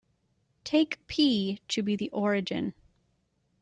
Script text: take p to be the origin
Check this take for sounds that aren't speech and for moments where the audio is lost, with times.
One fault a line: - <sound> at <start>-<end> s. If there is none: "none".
none